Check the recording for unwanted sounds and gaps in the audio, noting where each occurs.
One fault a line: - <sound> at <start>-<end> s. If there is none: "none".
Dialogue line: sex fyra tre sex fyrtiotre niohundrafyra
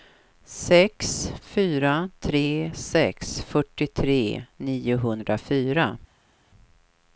none